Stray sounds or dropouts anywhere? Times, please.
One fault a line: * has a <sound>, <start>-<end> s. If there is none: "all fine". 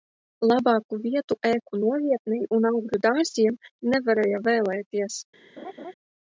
* has a laugh, 5.6-5.9 s